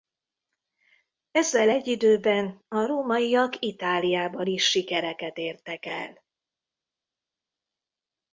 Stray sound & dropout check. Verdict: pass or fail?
pass